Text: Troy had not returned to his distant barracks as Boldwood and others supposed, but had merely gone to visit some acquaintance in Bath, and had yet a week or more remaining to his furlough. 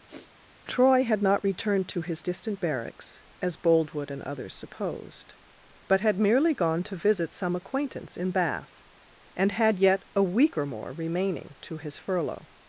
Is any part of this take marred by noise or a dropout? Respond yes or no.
yes